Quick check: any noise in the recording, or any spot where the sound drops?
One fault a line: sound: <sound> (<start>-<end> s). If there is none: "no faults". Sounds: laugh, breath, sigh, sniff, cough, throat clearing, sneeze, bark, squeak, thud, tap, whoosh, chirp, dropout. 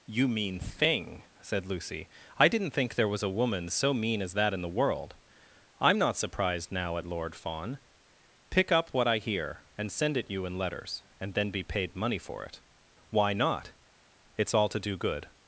no faults